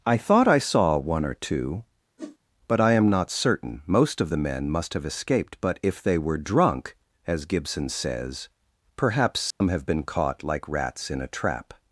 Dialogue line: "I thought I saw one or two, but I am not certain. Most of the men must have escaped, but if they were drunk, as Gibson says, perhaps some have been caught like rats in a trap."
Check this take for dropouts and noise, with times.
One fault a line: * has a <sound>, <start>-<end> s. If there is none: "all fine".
* has a whoosh, 2.2-2.4 s
* has a dropout, 9.5-9.6 s